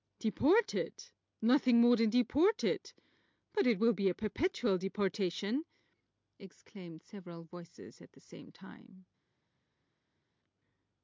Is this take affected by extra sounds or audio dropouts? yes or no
no